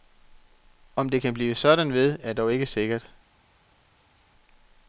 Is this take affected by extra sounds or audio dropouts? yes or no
no